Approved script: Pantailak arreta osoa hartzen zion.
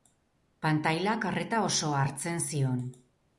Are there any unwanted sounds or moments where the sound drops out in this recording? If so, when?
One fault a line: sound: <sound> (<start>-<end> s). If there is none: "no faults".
no faults